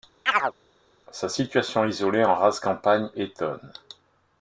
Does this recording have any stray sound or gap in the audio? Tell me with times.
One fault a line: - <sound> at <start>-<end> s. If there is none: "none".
- chirp at 0.3-0.5 s